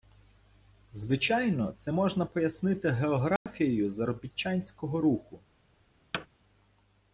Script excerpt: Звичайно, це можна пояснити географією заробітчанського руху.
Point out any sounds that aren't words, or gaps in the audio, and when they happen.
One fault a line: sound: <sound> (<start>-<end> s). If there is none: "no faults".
sound: dropout (3.4-3.5 s)
sound: thud (6.1-6.3 s)